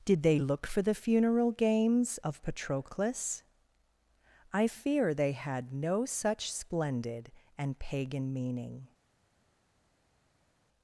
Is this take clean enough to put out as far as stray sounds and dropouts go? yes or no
yes